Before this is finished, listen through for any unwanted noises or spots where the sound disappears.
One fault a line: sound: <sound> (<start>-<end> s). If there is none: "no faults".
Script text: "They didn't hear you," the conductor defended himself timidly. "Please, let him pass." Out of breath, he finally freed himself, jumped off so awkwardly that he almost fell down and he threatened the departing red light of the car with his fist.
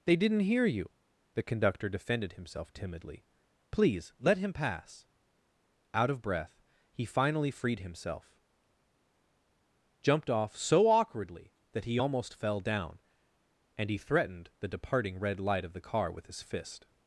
no faults